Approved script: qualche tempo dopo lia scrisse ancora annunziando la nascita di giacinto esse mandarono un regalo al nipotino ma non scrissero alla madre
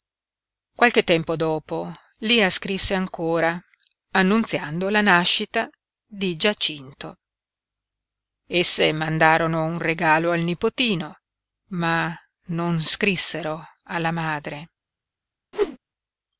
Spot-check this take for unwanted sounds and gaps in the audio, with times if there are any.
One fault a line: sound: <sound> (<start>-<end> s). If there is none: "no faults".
sound: whoosh (15.5-15.8 s)